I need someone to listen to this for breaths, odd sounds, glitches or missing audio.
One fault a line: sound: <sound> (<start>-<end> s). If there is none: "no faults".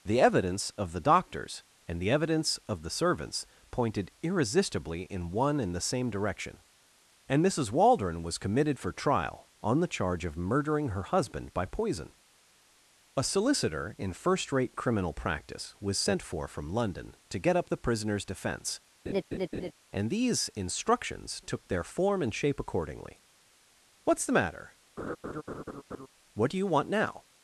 sound: laugh (19.1-19.7 s)
sound: laugh (25.0-26.1 s)